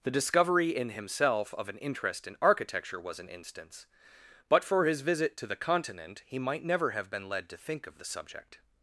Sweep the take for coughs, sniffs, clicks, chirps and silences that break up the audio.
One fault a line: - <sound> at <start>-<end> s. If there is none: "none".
none